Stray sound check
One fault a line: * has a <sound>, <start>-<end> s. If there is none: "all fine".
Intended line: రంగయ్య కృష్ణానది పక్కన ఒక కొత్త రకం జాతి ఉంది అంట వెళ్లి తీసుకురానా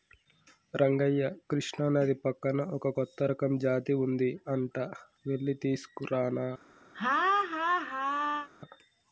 * has a laugh, 6.9-8.5 s